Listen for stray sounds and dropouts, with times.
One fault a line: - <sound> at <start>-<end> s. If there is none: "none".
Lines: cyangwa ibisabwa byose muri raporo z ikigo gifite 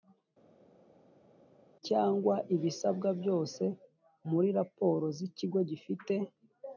none